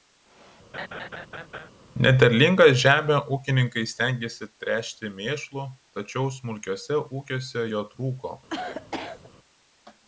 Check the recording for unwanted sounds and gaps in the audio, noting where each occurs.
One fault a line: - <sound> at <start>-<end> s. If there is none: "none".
- laugh at 0.7-1.7 s
- cough at 8.5-9.3 s